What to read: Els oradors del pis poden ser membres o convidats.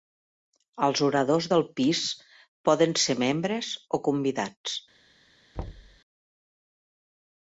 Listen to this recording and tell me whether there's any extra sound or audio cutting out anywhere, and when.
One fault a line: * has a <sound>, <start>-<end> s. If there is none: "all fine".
* has a thud, 5.5-6.0 s